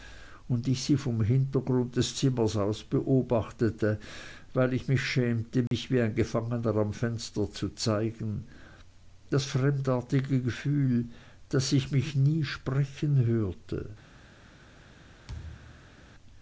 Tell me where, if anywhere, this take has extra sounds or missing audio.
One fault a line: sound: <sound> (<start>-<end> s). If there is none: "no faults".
sound: dropout (5.7-5.7 s)
sound: thud (15.3-16.0 s)